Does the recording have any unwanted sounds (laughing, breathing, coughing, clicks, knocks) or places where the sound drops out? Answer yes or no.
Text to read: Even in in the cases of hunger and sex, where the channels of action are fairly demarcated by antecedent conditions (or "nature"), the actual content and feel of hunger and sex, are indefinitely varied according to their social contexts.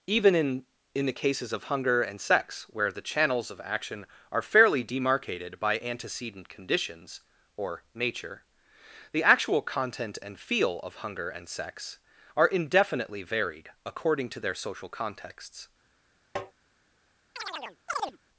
yes